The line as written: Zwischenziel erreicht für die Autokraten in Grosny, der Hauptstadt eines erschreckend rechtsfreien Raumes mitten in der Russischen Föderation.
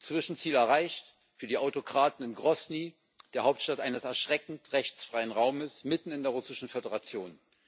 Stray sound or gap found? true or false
false